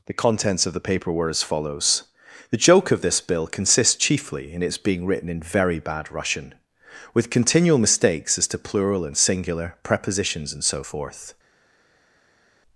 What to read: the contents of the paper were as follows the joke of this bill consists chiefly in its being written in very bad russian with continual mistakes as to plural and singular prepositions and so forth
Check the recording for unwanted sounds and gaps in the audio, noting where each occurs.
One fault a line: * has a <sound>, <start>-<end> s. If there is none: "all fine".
all fine